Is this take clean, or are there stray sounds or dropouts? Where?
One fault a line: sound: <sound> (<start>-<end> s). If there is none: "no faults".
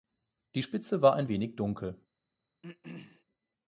sound: throat clearing (2.6-3.2 s)